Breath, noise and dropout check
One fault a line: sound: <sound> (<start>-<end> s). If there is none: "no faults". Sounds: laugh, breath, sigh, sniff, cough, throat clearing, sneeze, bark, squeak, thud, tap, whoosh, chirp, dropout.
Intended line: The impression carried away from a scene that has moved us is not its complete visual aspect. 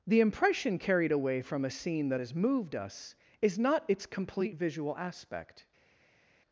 no faults